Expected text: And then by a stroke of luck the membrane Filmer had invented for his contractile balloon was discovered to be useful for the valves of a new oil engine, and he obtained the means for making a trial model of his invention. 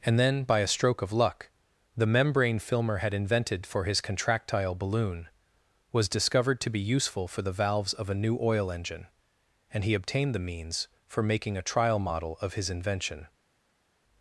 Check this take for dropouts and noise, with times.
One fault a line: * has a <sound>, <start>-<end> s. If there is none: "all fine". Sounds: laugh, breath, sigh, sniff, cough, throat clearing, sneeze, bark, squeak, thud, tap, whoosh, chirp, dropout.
all fine